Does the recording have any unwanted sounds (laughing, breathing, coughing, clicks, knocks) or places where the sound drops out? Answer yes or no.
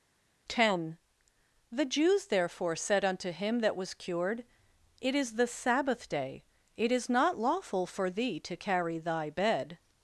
no